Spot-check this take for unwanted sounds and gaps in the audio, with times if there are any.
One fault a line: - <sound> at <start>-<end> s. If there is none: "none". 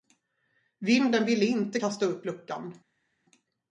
none